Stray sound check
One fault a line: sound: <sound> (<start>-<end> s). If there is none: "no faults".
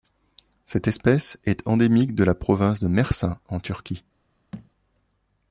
sound: thud (4.5-4.7 s)